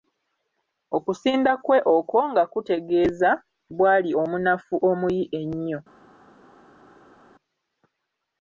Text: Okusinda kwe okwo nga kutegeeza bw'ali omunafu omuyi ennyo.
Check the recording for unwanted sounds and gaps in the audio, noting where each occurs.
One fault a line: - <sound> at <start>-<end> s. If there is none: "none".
none